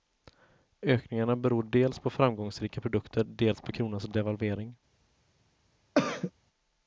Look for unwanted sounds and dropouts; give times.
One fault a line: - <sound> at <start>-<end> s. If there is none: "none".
- throat clearing at 6.0-6.3 s